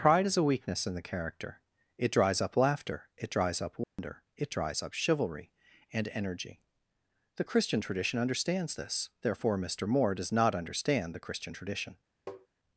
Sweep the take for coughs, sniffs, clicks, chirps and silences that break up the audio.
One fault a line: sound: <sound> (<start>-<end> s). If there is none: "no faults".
sound: dropout (3.8-4.0 s)
sound: tap (12.3-12.5 s)